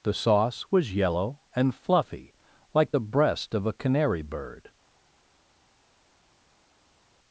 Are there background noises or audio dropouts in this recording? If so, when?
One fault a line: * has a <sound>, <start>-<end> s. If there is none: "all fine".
all fine